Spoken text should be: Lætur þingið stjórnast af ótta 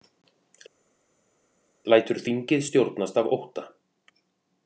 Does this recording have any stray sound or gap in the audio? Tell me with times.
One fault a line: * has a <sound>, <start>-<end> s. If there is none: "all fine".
all fine